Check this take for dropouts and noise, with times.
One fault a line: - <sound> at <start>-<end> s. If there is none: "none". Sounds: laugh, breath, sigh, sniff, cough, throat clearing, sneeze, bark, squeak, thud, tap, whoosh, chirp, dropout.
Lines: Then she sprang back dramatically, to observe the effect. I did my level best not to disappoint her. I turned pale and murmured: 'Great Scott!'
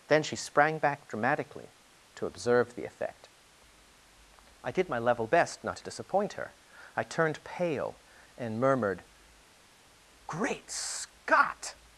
none